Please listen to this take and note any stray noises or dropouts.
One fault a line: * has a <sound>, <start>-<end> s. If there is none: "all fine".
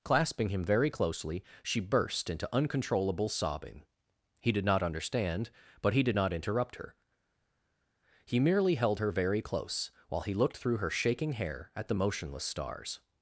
all fine